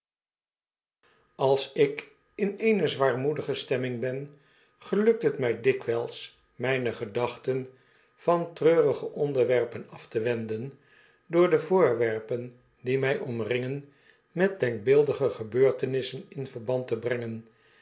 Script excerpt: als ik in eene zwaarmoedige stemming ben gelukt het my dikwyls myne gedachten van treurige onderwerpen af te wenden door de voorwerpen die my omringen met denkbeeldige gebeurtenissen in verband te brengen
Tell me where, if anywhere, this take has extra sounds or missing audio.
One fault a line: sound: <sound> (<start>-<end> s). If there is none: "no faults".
no faults